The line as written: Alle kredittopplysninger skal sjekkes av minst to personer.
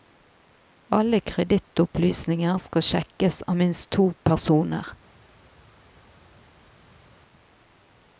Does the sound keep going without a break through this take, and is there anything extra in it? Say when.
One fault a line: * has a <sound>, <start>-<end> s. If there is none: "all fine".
all fine